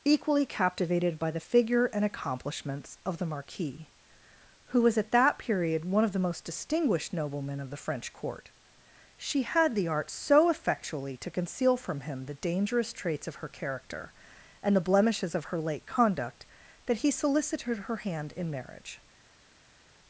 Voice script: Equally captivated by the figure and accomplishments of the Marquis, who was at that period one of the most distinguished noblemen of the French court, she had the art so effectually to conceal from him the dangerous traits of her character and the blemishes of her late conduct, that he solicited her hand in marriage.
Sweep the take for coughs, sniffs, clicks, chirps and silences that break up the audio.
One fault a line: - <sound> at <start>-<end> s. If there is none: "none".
none